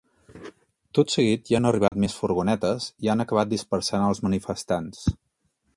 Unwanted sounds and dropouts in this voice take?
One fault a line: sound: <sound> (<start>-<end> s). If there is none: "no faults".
sound: dropout (1.9-1.9 s)